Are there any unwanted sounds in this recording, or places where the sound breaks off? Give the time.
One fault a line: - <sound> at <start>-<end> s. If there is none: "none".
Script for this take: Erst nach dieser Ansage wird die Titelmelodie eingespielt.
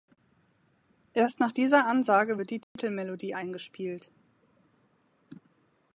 - dropout at 2.6-2.8 s